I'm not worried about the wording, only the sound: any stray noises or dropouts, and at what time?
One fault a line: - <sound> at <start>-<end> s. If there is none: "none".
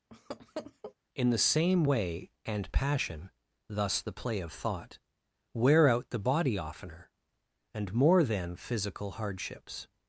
- laugh at 0.1-0.9 s